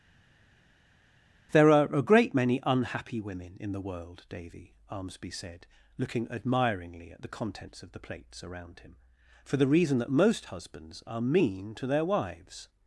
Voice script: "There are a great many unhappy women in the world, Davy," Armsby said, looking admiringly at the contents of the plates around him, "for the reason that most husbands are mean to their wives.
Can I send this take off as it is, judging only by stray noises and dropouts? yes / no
yes